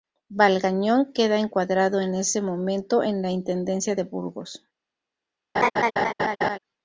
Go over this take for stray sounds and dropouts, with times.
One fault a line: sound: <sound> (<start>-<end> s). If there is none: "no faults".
sound: laugh (5.5-6.6 s)